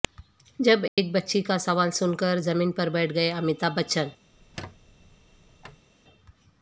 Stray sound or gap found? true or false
true